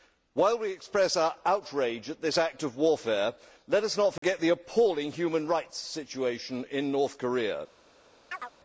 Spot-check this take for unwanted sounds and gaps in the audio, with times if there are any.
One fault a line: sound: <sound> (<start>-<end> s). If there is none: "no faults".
sound: dropout (4.2-4.2 s)
sound: chirp (8.3-8.5 s)